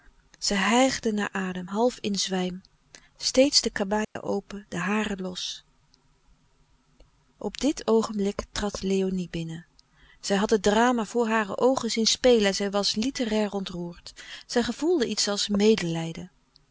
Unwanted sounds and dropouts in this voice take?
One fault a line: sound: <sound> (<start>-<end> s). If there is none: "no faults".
sound: dropout (4.0-4.2 s)